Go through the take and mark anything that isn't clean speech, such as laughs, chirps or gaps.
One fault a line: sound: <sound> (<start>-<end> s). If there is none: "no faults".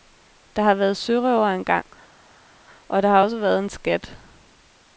no faults